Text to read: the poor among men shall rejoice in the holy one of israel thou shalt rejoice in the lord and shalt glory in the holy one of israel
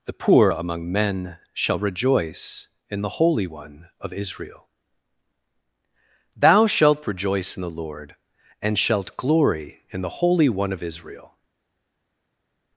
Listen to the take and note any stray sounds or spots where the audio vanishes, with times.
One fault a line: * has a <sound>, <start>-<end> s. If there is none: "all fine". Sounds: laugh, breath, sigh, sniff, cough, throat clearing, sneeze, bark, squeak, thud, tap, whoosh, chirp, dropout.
all fine